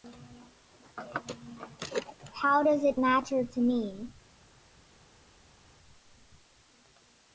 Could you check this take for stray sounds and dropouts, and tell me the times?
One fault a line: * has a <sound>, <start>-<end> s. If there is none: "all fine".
all fine